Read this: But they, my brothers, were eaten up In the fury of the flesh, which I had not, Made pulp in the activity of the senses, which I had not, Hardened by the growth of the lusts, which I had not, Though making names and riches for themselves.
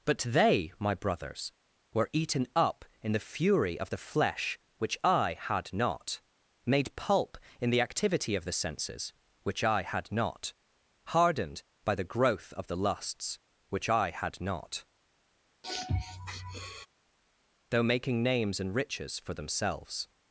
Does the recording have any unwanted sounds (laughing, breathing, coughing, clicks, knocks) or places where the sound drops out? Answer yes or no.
yes